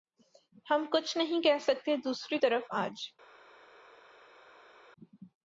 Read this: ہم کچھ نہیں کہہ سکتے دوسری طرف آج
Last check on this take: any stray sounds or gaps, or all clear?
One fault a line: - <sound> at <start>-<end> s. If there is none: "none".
none